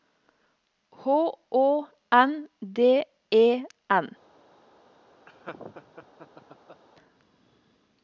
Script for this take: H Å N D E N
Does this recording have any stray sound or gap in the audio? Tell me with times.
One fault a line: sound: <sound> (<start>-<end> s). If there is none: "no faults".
sound: laugh (5.3-6.8 s)